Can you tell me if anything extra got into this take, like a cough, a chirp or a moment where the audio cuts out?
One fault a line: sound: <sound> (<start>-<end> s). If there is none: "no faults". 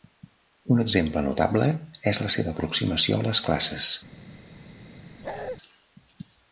sound: bark (5.2-5.6 s)